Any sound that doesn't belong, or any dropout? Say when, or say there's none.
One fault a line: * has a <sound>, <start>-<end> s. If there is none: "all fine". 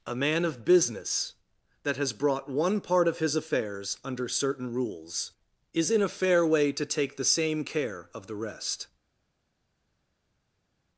all fine